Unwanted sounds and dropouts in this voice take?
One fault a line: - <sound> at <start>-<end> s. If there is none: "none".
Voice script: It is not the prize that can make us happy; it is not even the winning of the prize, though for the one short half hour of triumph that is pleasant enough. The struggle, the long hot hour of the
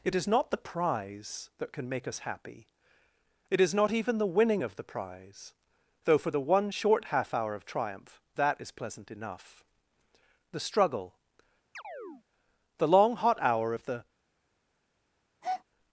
- chirp at 11.7-12.2 s
- breath at 15.4-15.6 s